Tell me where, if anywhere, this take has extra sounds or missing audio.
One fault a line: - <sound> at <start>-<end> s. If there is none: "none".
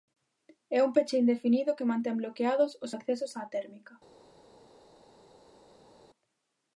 none